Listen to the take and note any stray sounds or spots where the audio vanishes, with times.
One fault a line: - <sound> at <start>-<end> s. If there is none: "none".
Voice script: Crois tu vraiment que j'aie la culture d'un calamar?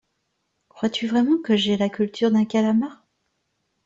none